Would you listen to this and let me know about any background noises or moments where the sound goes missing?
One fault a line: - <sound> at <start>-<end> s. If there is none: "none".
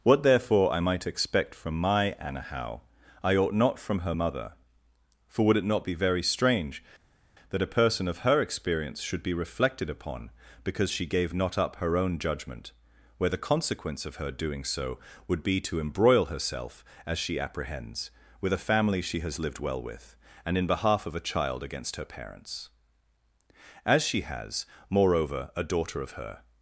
none